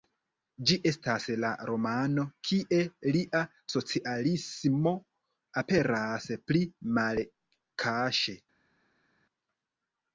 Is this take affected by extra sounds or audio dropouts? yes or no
no